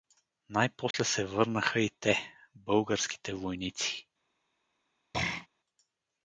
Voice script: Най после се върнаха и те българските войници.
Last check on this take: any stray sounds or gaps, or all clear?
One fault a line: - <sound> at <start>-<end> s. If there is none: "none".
- dropout at 0.9-0.9 s
- throat clearing at 5.1-5.5 s